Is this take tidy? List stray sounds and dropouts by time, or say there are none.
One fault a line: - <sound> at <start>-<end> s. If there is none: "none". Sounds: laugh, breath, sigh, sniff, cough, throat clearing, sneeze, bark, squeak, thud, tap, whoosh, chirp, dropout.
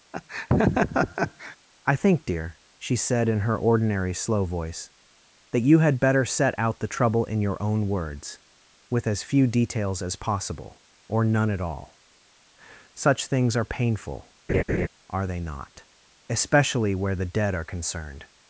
- laugh at 0.1-1.6 s
- laugh at 14.5-14.9 s